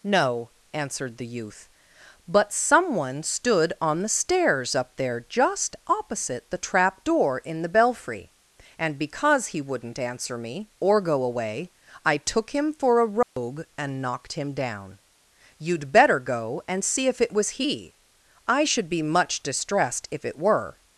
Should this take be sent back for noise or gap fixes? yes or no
yes